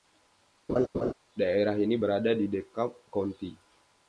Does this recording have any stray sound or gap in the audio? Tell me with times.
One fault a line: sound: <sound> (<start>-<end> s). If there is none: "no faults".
sound: laugh (0.7-1.1 s)